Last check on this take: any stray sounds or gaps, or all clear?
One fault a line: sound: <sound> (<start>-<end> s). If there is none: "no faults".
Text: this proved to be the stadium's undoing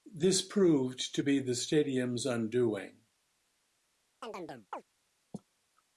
sound: chirp (4.2-4.8 s)